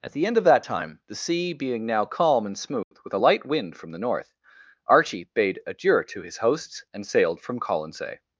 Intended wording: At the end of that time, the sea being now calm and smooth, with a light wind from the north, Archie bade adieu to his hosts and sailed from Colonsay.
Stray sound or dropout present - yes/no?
yes